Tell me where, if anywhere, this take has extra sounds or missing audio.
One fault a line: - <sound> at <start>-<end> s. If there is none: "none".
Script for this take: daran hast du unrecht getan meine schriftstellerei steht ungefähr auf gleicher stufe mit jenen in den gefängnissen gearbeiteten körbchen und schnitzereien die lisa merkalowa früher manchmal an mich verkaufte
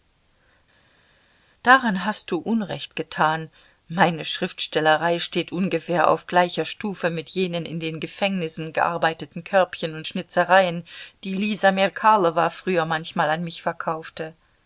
none